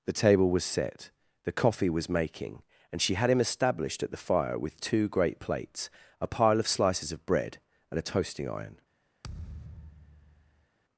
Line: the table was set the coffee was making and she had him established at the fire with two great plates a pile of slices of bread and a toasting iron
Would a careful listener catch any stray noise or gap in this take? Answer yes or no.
yes